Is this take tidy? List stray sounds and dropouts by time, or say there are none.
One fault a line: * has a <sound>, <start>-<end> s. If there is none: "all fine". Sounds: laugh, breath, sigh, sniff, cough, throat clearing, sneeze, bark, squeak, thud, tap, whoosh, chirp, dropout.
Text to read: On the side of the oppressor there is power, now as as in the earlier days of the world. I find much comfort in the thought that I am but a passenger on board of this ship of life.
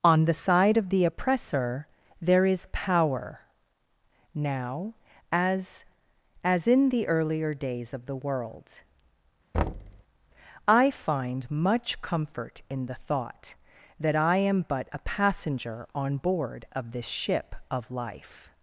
* has a thud, 9.5-10.0 s